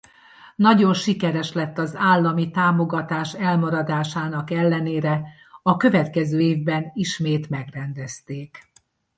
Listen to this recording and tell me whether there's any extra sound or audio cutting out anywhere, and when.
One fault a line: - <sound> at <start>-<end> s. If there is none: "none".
none